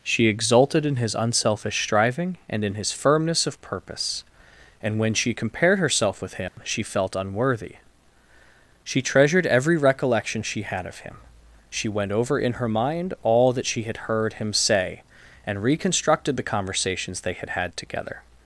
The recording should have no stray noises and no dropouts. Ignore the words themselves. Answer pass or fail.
fail